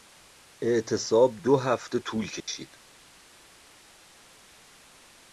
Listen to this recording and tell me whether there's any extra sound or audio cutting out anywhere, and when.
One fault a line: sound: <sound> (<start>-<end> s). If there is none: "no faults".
sound: dropout (2.4-2.5 s)